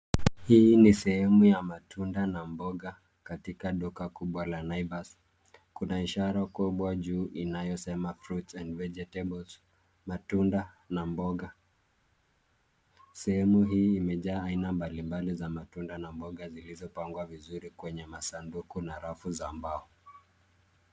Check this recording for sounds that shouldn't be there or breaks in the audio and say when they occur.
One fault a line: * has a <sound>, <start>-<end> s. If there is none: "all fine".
all fine